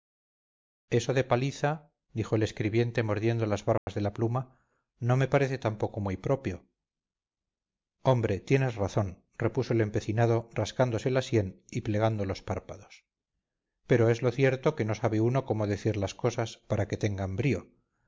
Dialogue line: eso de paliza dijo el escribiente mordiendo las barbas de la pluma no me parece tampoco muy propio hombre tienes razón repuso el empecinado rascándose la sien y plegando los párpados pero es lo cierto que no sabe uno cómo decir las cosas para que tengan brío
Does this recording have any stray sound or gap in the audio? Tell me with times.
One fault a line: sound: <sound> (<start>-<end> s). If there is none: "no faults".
sound: dropout (3.8-3.9 s)